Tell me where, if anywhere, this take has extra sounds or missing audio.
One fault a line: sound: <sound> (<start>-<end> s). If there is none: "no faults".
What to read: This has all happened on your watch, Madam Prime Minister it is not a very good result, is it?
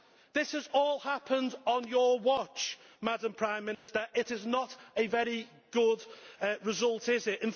sound: dropout (3.7-3.9 s)